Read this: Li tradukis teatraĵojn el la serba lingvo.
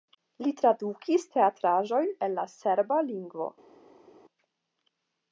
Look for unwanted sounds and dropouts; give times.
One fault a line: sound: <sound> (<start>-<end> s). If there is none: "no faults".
no faults